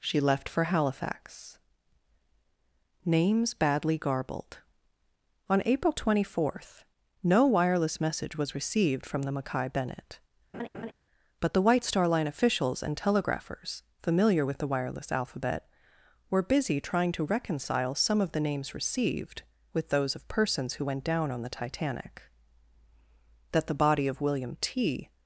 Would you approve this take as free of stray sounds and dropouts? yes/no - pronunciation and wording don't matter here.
no